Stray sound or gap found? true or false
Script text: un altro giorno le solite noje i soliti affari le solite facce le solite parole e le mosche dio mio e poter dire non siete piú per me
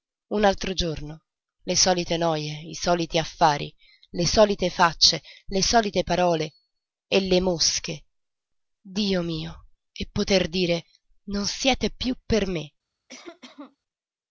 true